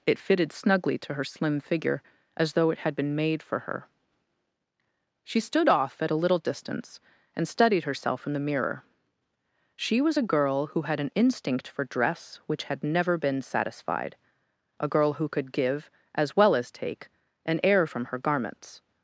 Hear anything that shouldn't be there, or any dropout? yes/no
no